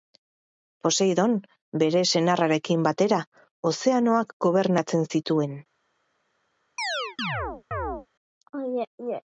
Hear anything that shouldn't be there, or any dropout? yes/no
yes